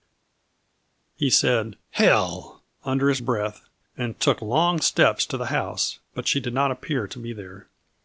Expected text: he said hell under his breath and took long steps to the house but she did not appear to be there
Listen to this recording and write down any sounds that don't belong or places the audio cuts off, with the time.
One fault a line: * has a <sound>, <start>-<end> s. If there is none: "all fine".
all fine